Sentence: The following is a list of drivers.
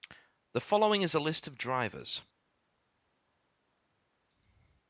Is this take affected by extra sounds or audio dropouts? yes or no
no